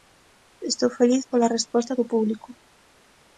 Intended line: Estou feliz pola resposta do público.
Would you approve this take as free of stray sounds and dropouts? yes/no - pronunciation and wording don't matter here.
yes